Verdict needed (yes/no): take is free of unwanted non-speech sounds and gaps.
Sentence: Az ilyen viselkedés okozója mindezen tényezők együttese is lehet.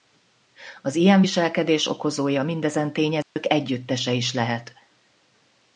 no